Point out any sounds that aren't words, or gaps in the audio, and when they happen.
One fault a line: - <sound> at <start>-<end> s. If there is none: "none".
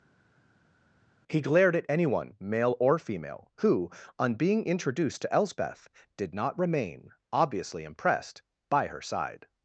none